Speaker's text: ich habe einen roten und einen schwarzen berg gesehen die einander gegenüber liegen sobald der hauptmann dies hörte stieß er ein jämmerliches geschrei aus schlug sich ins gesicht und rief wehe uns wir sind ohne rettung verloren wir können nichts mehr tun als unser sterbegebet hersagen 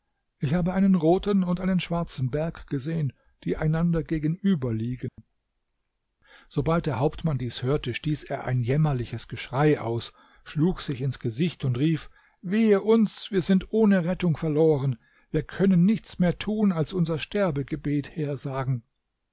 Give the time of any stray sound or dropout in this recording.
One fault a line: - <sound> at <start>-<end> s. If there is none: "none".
- dropout at 5.1-5.2 s